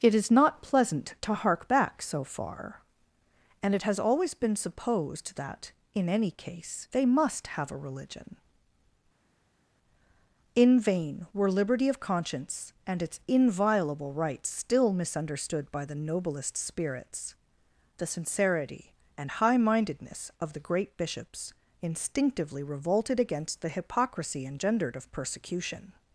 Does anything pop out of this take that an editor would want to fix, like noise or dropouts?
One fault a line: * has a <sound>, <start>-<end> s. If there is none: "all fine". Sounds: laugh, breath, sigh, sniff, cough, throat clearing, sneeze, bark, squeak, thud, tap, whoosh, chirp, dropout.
all fine